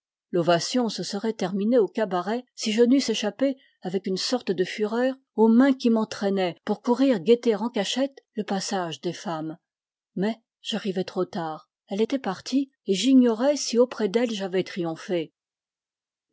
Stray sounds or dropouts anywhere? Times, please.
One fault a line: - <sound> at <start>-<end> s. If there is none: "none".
none